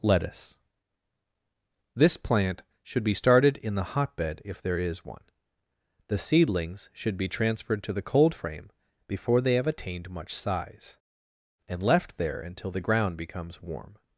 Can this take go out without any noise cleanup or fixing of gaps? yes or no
yes